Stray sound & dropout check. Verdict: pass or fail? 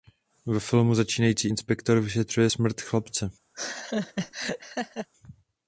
fail